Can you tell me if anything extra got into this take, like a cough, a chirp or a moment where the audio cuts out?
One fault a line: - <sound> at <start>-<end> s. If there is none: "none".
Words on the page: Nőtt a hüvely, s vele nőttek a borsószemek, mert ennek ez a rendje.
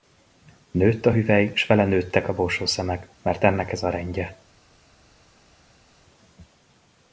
none